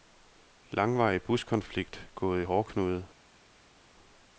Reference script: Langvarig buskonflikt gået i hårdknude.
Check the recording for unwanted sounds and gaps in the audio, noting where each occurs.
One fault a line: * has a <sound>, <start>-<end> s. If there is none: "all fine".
all fine